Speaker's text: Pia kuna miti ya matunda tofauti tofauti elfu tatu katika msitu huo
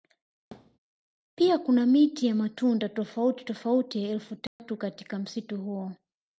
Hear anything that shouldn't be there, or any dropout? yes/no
yes